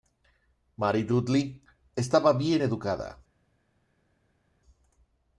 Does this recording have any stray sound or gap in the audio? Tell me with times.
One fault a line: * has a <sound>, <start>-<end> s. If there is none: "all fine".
all fine